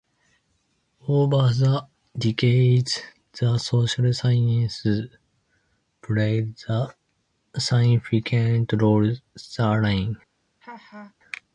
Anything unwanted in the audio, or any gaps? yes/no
yes